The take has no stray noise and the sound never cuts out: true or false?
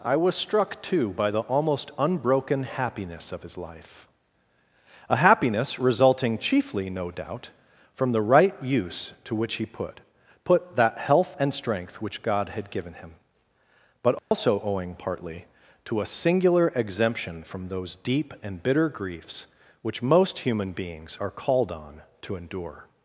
false